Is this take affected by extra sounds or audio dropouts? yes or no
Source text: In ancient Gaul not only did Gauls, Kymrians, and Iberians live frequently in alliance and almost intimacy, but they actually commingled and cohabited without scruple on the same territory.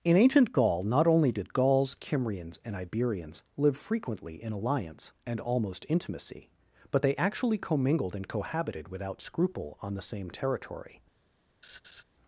yes